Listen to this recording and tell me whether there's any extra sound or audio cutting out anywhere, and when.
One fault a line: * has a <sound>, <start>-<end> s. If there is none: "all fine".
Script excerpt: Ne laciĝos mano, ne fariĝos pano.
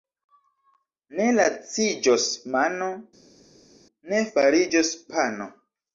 all fine